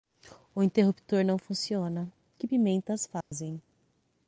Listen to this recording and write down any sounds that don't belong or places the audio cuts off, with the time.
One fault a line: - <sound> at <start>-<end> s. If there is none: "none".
- dropout at 3.2-3.3 s